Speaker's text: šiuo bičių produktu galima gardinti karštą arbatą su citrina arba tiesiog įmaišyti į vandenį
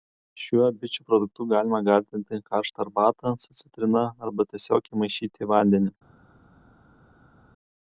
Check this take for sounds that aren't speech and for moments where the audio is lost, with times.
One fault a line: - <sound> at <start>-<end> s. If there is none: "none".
none